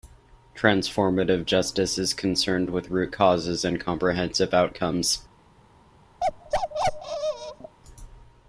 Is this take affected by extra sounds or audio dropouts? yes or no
yes